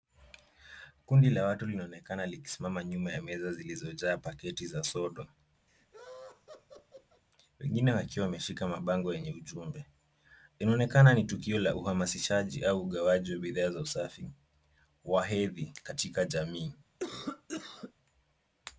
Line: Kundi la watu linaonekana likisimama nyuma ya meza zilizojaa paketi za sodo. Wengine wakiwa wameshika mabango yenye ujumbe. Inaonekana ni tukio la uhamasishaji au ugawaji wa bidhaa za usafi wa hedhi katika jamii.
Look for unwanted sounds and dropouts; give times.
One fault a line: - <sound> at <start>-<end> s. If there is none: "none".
- laugh at 5.7-7.2 s
- cough at 17.0-17.9 s